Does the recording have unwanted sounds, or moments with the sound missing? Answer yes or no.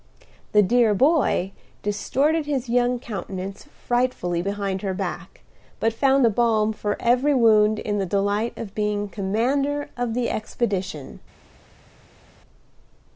no